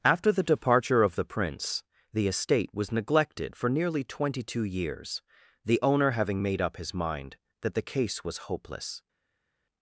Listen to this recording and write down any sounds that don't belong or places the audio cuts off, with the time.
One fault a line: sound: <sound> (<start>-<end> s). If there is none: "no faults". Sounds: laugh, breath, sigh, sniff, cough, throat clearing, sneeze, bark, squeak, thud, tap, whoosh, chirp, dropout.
no faults